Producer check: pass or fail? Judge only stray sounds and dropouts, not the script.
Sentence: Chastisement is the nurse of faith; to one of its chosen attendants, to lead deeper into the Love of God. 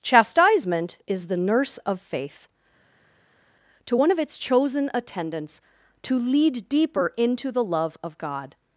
pass